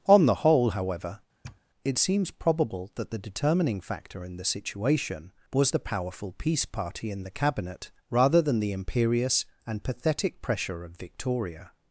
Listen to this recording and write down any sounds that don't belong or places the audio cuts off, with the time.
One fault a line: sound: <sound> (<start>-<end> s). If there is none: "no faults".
sound: sniff (1.4-1.6 s)